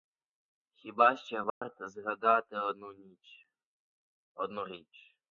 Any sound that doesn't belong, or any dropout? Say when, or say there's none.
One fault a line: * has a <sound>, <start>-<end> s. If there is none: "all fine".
* has a dropout, 1.5-1.6 s